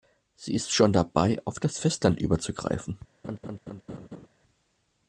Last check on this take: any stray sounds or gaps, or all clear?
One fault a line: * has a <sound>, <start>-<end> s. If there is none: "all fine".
* has a laugh, 3.2-4.3 s